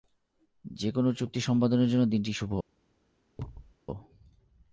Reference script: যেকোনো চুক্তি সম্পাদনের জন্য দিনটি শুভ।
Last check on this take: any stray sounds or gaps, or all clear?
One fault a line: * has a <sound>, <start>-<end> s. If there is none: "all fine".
* has a thud, 3.4-3.7 s